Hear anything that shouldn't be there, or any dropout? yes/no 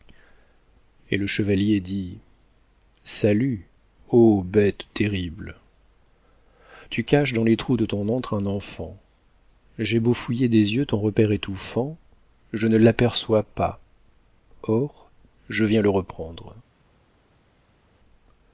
no